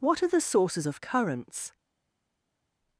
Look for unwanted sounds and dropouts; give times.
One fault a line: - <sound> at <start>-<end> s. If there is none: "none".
none